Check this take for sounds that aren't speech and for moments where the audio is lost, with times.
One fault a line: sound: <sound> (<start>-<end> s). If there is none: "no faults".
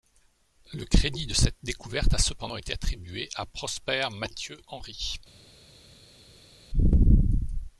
no faults